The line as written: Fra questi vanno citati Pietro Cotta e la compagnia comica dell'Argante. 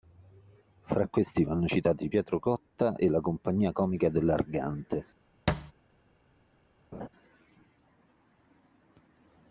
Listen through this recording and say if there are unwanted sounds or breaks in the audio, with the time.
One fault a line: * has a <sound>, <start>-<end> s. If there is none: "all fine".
* has a thud, 5.5-5.7 s
* has a laugh, 6.9-7.1 s